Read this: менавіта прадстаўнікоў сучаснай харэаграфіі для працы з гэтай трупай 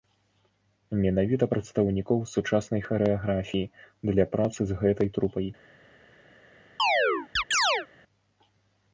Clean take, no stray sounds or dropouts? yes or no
no